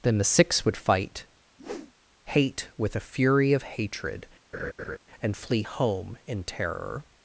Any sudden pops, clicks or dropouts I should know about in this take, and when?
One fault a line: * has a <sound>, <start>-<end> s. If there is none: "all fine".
* has a whoosh, 1.6-1.9 s
* has a laugh, 4.5-5.0 s